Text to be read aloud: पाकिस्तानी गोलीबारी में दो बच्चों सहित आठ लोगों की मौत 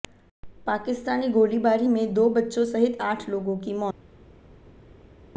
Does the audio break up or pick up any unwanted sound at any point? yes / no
no